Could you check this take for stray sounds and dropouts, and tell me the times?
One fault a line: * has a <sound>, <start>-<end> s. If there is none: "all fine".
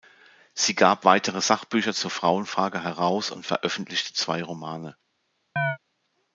* has a chirp, 5.6-5.8 s